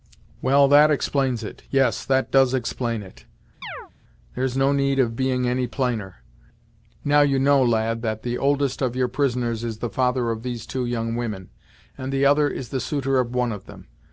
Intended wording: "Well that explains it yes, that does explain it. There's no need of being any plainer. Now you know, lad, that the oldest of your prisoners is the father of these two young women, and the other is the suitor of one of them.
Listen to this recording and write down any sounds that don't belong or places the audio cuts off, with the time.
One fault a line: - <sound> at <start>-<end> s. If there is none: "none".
- chirp at 3.6-3.9 s